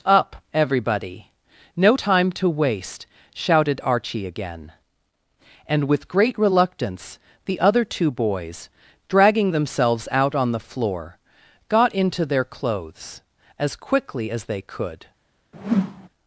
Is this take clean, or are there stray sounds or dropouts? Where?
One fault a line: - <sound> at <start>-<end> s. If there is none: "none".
- whoosh at 15.5-16.1 s